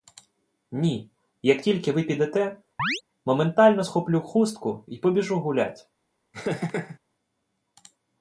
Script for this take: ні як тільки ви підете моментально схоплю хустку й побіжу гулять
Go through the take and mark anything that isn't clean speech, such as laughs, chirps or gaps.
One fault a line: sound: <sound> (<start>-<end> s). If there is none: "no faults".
sound: chirp (2.8-3.0 s)
sound: laugh (6.3-7.0 s)